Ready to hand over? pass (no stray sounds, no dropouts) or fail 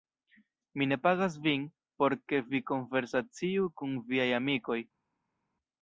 pass